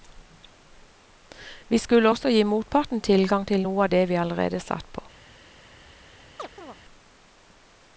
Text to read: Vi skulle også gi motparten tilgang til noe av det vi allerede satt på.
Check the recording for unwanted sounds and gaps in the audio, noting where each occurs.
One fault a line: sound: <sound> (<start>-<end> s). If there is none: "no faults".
sound: chirp (6.4-6.8 s)